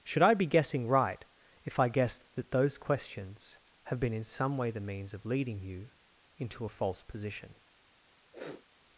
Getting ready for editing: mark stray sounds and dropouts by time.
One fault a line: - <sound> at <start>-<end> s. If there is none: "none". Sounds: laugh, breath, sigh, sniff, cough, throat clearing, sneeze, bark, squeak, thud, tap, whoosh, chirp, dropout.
- sniff at 8.3-8.7 s